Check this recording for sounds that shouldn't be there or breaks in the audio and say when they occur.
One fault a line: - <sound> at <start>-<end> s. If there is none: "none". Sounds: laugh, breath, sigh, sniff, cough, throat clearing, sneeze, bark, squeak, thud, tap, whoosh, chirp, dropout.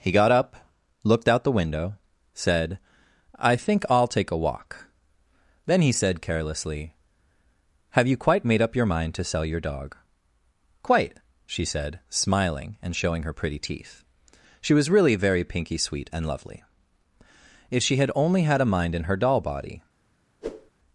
- whoosh at 20.4-20.7 s